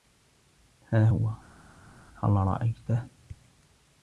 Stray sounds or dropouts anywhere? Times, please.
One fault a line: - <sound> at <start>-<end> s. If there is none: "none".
none